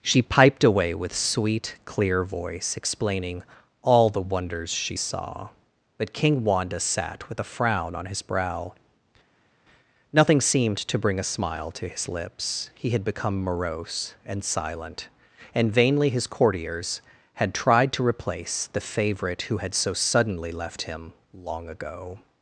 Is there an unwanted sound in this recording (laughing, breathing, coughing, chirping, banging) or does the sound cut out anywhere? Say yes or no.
no